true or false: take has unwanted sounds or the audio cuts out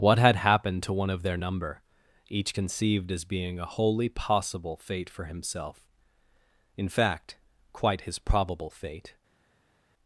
false